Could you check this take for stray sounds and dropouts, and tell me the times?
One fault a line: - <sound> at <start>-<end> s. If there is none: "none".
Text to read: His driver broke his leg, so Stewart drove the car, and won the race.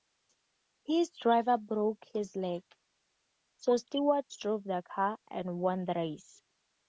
none